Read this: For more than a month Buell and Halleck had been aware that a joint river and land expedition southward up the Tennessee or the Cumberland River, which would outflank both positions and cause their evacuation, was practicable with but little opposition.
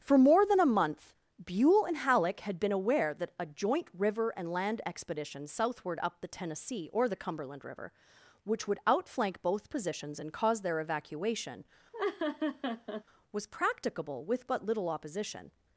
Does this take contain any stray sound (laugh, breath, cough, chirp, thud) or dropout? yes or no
yes